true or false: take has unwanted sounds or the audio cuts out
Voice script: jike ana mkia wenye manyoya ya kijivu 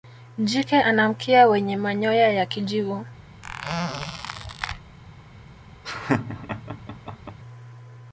true